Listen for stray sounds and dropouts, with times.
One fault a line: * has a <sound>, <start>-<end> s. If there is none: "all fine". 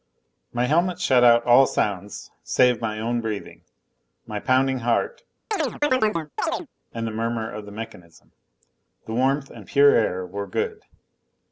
* has a chirp, 5.5-6.7 s